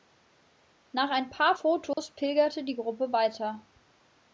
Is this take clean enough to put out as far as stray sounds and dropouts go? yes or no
no